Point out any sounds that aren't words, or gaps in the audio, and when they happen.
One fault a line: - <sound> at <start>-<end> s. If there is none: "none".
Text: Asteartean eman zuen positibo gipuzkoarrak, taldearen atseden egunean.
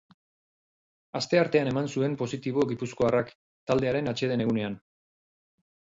none